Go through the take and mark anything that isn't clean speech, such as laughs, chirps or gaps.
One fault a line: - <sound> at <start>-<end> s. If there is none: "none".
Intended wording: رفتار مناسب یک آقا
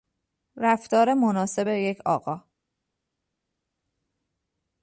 none